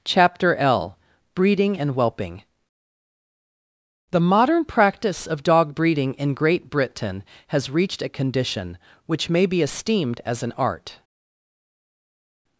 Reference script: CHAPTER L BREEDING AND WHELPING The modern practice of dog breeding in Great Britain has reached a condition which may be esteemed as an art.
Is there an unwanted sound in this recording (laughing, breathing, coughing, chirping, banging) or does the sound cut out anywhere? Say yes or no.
no